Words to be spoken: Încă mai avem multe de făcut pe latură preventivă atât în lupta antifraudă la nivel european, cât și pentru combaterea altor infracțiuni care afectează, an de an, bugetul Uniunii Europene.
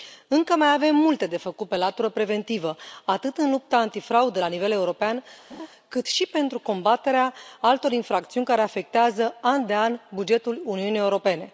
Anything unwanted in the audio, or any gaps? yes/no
yes